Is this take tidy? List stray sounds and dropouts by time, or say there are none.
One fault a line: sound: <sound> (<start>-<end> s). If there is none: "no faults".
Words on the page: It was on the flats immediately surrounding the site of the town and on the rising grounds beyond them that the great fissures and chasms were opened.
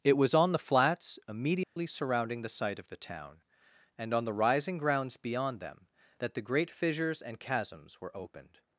sound: dropout (1.6-1.8 s)